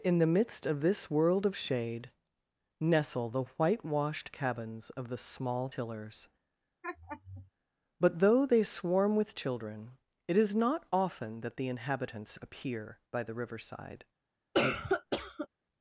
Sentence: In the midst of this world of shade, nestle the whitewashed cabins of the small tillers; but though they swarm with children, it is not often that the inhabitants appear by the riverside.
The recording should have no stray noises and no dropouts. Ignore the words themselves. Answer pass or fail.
fail